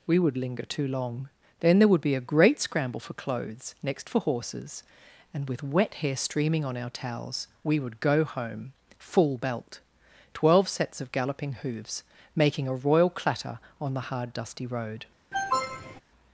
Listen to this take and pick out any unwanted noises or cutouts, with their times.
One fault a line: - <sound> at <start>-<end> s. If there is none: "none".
- cough at 15.3-16.0 s